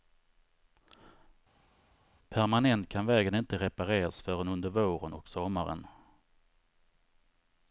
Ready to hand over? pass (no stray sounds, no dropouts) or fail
pass